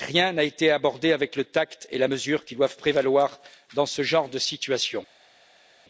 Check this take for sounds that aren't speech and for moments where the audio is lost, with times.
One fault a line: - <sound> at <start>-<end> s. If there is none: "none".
none